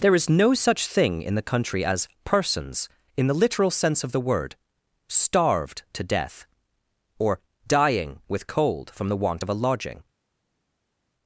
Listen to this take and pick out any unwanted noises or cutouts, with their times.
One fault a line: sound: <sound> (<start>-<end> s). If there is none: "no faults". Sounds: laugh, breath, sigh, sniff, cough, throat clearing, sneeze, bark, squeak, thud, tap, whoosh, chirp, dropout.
no faults